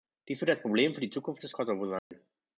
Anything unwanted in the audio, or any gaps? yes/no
yes